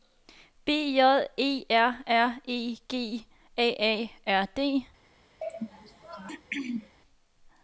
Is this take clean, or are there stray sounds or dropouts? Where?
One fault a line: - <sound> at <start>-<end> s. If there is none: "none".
- throat clearing at 5.4-7.0 s